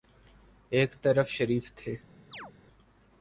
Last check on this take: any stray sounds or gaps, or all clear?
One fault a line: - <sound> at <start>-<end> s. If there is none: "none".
- chirp at 2.3-2.5 s